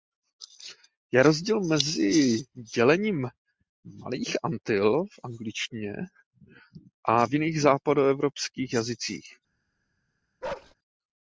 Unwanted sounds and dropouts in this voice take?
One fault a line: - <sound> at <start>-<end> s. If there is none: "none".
- bark at 10.4-10.7 s